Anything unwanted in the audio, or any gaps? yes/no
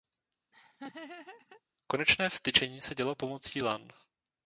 yes